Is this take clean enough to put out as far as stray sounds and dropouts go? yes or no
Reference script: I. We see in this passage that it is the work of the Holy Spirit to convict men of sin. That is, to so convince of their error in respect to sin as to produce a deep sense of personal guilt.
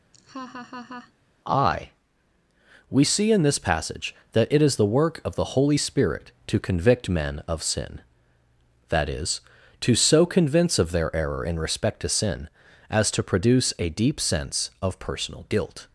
no